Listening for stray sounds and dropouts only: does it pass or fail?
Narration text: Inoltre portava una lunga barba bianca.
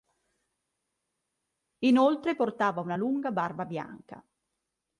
pass